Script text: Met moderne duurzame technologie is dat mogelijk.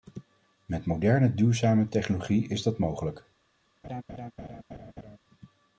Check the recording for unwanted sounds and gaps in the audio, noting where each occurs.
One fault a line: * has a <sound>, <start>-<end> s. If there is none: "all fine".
* has a laugh, 3.8-5.2 s